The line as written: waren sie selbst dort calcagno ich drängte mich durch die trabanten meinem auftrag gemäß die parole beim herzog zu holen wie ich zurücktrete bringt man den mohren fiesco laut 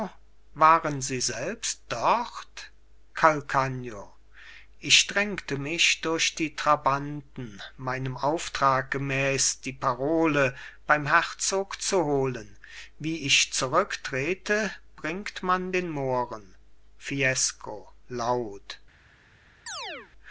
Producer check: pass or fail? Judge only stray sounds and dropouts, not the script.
fail